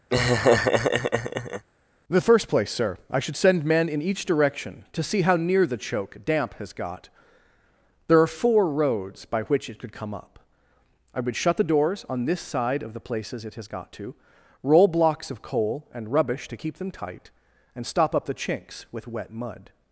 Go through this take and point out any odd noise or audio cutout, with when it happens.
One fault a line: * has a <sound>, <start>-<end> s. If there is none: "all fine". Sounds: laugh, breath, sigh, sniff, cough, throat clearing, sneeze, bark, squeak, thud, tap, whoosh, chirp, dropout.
* has a laugh, 0.1-1.6 s